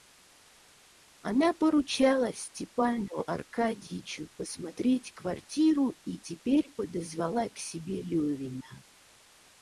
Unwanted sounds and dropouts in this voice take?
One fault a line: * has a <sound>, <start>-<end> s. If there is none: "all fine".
all fine